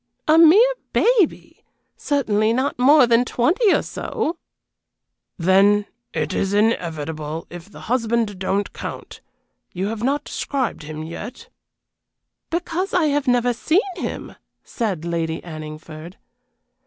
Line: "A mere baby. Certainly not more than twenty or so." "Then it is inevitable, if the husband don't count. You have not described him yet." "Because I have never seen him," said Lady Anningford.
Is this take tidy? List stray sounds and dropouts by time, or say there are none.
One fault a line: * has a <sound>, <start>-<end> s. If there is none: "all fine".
all fine